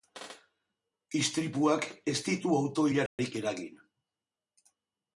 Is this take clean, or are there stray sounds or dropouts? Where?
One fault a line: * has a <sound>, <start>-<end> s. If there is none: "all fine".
* has a dropout, 3.1-3.2 s